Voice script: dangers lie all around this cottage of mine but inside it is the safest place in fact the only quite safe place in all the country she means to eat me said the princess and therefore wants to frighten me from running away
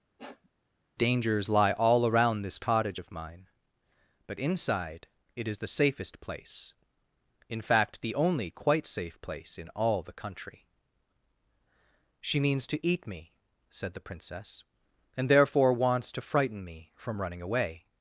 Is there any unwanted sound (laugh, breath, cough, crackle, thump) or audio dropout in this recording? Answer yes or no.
yes